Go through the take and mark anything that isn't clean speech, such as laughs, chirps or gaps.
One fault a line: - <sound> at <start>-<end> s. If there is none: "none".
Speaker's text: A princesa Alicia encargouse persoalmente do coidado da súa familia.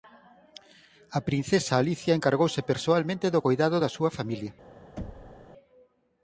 - thud at 5.0-5.5 s